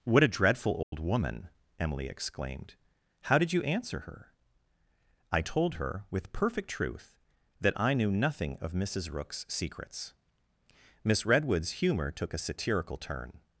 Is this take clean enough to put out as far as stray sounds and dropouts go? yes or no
no